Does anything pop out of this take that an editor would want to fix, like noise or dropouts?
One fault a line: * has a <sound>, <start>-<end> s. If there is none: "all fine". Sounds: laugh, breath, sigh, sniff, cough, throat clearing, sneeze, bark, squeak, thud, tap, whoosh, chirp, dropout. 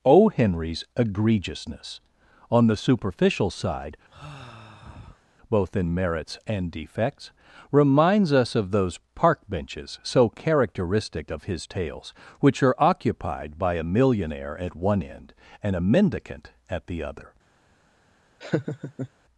* has a sigh, 4.1-5.2 s
* has a laugh, 18.4-19.1 s